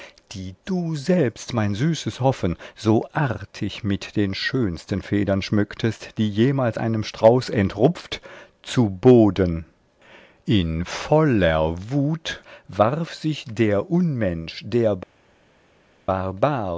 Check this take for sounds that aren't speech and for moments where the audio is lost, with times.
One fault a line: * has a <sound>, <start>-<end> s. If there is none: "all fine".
all fine